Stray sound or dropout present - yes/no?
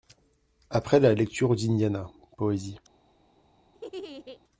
yes